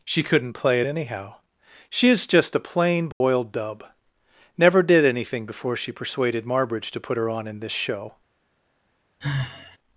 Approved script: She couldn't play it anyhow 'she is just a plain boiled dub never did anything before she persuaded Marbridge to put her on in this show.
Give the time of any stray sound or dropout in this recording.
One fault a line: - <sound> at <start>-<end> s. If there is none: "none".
- dropout at 3.1-3.2 s
- sigh at 9.2-9.8 s